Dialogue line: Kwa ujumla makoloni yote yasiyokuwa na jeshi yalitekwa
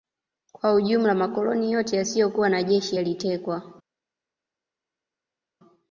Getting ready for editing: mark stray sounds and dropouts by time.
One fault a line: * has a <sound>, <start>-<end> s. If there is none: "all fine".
all fine